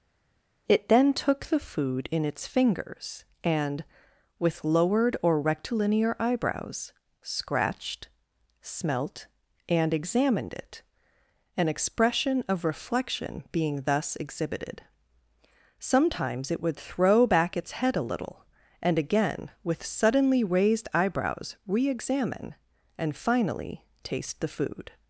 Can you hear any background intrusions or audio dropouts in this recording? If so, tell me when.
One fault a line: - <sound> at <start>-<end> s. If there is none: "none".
none